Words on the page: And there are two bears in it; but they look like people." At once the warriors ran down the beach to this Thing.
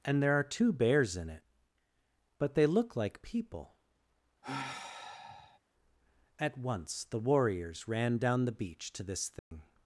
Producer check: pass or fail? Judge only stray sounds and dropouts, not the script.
fail